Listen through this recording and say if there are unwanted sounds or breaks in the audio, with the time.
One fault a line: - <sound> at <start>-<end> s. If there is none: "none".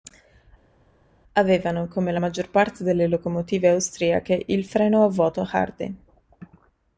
none